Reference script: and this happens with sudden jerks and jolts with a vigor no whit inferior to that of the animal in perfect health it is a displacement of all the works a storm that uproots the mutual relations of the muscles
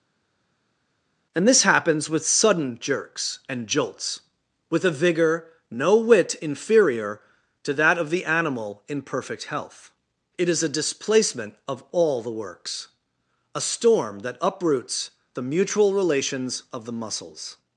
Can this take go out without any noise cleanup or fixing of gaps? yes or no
yes